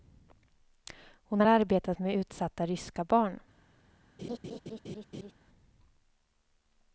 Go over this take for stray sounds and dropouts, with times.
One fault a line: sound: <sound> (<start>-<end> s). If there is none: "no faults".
sound: laugh (4.2-5.3 s)